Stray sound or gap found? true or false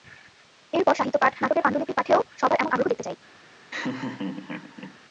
true